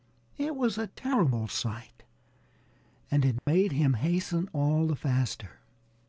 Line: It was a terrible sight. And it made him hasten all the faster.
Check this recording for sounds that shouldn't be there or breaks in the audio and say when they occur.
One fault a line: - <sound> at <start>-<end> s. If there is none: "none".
- dropout at 3.4-3.5 s